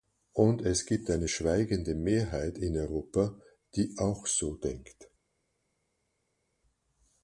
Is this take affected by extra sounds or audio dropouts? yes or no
no